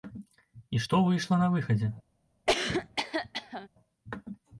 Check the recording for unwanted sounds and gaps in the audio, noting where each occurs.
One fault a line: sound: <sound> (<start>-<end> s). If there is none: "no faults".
sound: cough (2.5-3.7 s)